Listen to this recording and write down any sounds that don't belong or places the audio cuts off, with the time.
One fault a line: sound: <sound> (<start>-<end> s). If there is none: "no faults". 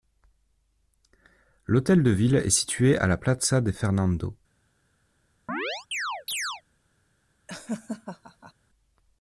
sound: chirp (5.5-6.6 s)
sound: laugh (7.5-8.5 s)